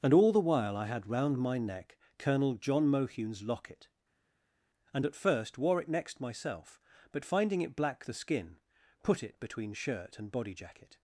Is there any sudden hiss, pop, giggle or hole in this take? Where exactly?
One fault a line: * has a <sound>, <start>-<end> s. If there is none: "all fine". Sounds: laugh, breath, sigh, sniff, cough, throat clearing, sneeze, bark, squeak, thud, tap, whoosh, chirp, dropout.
all fine